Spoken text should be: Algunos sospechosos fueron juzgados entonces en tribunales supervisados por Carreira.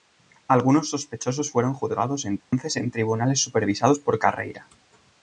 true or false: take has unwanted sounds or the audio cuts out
true